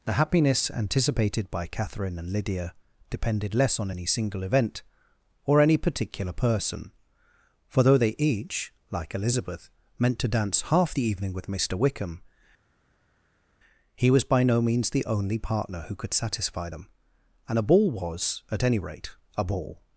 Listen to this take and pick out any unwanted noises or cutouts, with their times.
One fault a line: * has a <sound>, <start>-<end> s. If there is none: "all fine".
all fine